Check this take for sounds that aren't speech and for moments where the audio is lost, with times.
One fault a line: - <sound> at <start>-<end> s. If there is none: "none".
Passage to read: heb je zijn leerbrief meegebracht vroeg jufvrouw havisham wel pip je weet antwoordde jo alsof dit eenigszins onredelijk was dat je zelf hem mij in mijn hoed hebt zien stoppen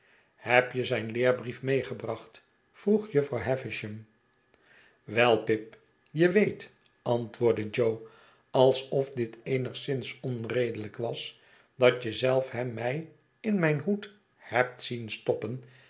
none